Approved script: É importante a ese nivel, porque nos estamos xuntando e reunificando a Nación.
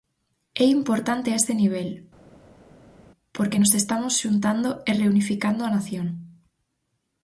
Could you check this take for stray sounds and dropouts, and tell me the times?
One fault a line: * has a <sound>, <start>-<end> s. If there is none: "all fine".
all fine